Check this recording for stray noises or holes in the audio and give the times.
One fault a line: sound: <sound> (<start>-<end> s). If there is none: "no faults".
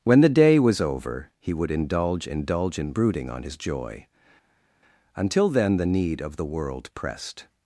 no faults